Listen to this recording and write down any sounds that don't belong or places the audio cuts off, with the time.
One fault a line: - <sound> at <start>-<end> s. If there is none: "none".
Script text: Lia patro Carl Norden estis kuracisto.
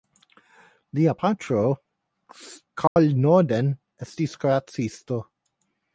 - dropout at 2.9-3.0 s